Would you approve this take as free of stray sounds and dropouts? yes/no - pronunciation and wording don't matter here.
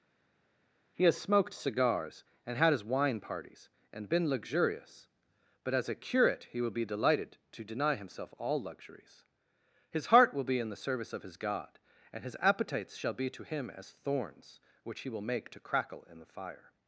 yes